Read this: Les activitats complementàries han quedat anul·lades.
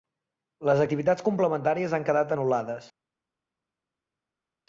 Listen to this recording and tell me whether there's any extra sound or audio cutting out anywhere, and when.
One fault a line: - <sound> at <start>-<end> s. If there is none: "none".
none